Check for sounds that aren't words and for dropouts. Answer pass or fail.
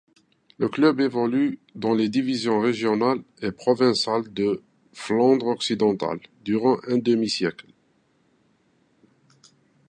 pass